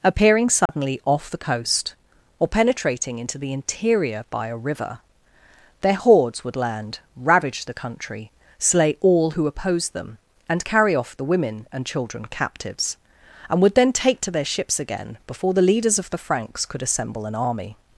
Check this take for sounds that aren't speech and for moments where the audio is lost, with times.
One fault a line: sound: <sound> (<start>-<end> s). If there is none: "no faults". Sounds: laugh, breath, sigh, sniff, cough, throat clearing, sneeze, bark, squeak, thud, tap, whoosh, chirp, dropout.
sound: dropout (0.7-0.7 s)